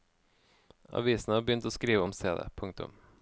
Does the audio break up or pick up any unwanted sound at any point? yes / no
no